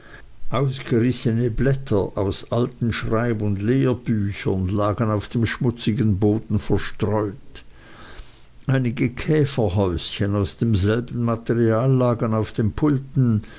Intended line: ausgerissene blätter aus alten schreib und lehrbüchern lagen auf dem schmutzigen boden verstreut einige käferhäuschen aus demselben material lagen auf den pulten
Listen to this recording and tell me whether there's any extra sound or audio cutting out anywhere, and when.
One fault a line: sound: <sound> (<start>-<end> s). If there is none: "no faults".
no faults